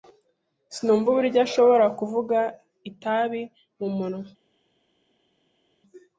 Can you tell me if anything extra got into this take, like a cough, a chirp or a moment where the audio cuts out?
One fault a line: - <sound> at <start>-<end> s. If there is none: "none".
none